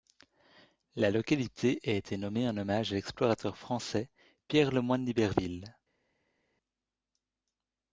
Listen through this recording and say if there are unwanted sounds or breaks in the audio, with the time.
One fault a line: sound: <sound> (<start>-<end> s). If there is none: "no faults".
no faults